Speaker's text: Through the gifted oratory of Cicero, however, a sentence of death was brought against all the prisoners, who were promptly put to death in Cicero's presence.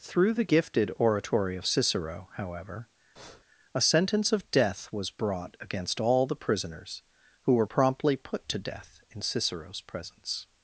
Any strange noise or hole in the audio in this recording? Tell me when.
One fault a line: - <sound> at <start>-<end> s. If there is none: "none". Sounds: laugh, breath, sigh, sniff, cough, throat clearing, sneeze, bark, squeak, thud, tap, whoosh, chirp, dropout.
- breath at 3.2-3.4 s